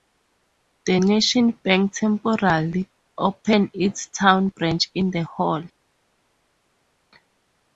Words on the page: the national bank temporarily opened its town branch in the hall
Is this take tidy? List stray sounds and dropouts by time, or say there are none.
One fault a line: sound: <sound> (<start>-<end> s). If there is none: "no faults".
no faults